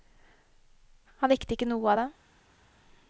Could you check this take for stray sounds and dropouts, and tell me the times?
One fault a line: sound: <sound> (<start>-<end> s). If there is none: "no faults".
no faults